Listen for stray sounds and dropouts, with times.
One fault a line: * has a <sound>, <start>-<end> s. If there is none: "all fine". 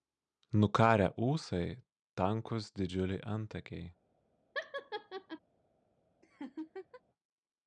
* has a laugh, 4.5-5.4 s
* has a laugh, 6.2-7.0 s